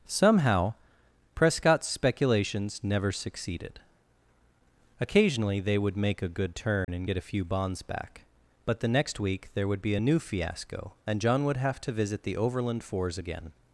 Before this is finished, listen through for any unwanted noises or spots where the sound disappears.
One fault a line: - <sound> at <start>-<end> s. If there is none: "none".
- dropout at 6.8-6.9 s